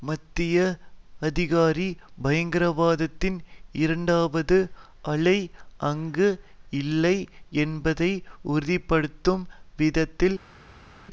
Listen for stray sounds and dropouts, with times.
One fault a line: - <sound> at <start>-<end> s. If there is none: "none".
none